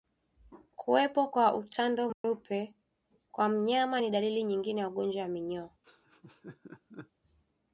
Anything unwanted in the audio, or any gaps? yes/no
yes